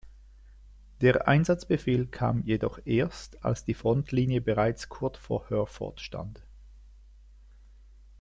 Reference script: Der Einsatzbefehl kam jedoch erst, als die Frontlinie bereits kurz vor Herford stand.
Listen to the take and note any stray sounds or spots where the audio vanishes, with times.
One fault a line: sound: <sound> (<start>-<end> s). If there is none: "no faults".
no faults